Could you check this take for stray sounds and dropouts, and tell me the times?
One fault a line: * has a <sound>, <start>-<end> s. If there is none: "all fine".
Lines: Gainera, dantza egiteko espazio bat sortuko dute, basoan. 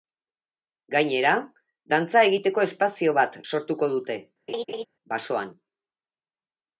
* has a laugh, 4.5-4.9 s